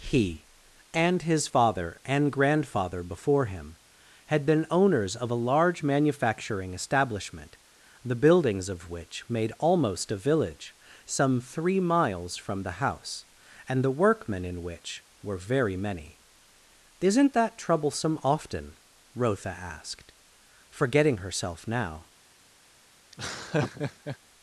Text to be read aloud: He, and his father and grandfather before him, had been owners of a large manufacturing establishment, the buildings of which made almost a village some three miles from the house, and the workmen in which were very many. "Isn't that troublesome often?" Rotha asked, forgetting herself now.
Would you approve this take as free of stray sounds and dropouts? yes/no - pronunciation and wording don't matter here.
no